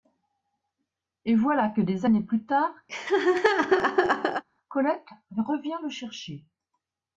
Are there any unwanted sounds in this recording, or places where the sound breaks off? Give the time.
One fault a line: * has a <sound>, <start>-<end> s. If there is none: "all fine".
* has a laugh, 2.9-4.4 s